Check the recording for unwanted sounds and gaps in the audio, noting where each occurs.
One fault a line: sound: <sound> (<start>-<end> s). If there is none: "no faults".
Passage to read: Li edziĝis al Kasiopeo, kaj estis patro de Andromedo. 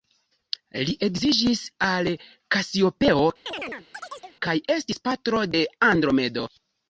sound: chirp (3.5-4.4 s)